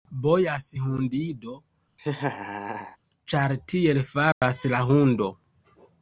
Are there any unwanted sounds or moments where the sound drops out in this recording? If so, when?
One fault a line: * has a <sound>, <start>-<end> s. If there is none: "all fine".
* has a laugh, 2.0-3.0 s
* has a dropout, 4.3-4.4 s